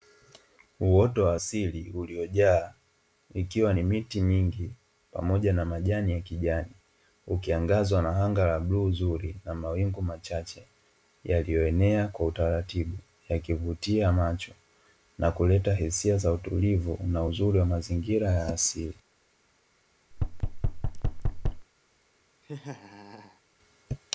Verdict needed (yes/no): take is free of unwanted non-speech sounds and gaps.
no